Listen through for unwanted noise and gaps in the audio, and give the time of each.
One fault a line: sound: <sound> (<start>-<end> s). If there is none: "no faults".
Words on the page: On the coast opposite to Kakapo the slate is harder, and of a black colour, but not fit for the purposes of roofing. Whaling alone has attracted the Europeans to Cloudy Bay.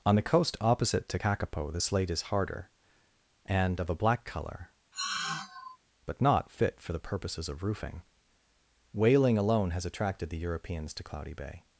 sound: sigh (4.9-5.8 s)